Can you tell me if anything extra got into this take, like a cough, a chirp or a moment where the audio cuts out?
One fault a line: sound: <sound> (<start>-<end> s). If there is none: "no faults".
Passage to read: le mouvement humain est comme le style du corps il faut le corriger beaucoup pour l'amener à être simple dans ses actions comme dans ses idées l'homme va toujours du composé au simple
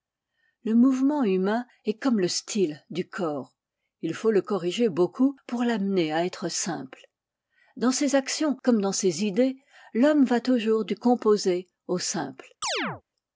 sound: chirp (12.6-13.0 s)